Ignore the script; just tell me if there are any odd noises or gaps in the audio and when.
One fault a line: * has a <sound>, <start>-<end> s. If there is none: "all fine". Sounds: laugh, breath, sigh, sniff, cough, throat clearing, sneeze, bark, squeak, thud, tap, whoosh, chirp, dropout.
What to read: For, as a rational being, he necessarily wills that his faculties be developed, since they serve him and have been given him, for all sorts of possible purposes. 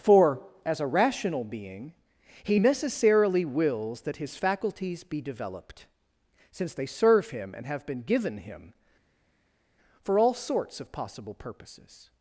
all fine